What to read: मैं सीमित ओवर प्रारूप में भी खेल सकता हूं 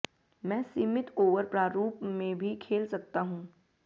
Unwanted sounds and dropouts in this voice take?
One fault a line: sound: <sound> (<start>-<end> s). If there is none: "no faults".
no faults